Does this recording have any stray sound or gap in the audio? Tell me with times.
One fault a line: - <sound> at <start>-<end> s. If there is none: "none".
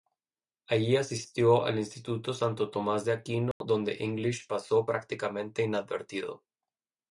- dropout at 3.5-3.6 s